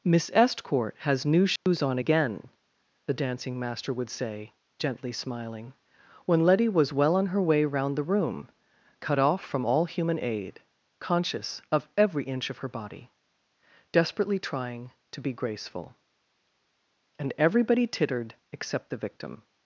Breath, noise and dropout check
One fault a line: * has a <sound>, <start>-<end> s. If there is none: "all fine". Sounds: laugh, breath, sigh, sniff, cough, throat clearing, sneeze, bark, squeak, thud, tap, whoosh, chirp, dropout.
* has a dropout, 1.6-1.7 s